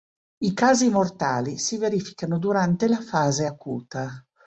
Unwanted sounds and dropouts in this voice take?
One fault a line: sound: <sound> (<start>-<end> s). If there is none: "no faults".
no faults